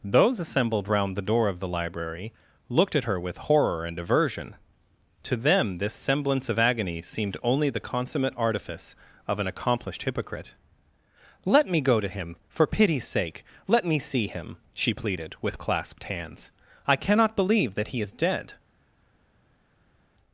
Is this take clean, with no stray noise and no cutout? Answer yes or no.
yes